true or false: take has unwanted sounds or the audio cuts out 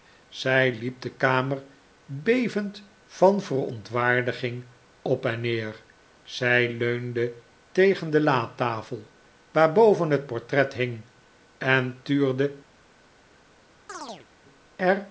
true